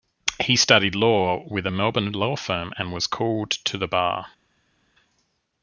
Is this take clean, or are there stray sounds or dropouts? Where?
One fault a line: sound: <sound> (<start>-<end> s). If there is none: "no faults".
no faults